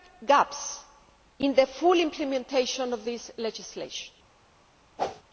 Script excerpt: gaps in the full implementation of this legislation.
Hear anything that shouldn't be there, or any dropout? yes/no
yes